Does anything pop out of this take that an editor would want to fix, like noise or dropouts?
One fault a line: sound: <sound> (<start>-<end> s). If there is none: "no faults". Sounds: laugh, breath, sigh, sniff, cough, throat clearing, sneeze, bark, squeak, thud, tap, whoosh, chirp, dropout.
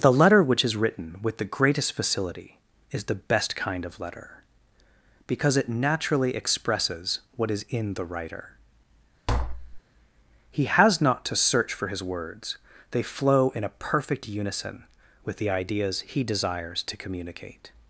sound: tap (9.3-9.8 s)